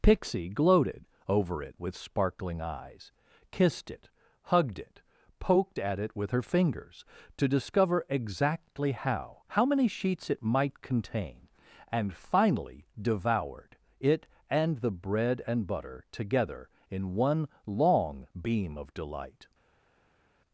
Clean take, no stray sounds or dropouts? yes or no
yes